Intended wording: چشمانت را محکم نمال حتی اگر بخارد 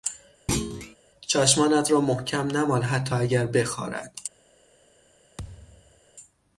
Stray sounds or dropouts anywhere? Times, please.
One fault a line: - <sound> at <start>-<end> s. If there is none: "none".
- thud at 0.5-1.0 s
- thud at 5.4-6.0 s